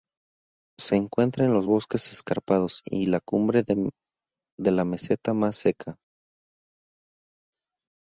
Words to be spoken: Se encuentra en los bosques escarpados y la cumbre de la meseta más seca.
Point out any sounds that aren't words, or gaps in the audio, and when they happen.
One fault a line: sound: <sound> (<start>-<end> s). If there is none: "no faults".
no faults